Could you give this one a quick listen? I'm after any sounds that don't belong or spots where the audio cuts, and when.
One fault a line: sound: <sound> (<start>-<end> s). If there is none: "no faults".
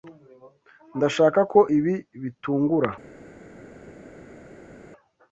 no faults